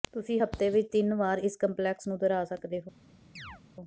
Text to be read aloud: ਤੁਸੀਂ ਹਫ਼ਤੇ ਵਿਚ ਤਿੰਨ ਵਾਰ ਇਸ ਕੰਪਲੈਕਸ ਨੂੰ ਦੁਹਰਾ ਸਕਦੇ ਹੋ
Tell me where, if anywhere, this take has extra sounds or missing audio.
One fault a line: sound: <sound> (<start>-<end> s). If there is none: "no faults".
sound: chirp (3.4-3.6 s)